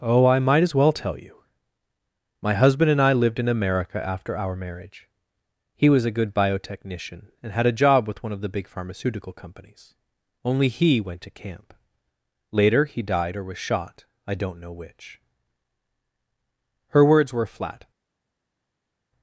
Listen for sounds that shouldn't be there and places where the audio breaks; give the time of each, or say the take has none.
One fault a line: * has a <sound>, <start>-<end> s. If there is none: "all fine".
all fine